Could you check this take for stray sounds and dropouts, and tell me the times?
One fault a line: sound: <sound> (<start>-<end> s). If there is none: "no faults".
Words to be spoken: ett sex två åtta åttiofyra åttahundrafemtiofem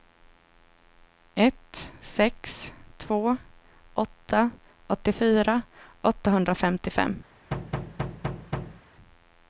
sound: thud (7.5-8.8 s)